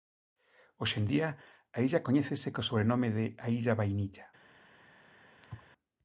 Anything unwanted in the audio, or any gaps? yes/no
yes